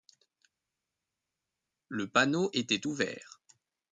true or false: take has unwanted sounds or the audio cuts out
false